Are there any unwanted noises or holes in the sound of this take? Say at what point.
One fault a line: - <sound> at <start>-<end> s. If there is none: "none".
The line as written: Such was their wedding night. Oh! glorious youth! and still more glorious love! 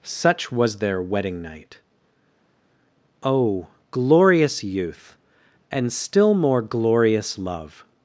none